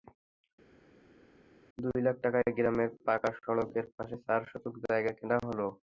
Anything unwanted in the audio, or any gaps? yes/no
no